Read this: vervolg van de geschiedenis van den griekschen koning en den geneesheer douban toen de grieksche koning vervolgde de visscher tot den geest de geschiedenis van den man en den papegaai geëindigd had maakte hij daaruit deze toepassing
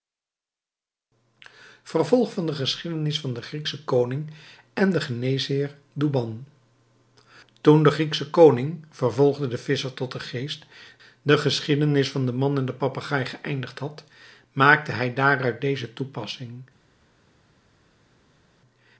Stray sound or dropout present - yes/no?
no